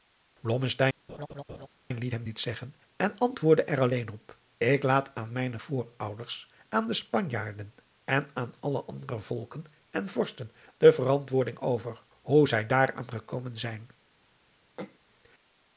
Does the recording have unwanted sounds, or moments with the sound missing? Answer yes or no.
yes